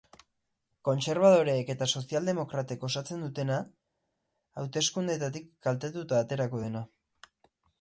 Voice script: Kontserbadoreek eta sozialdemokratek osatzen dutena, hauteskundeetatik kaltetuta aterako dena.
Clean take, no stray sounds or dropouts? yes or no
yes